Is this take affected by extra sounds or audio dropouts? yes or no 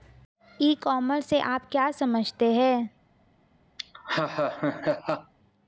yes